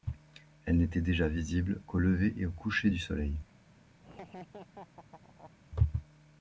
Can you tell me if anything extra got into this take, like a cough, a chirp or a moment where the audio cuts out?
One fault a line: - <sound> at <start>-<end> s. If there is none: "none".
- laugh at 4.0-5.5 s